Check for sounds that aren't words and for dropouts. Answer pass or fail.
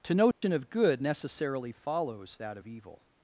fail